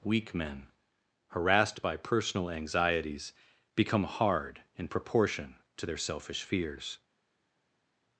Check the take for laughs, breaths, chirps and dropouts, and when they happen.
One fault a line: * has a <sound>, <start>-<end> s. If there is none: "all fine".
all fine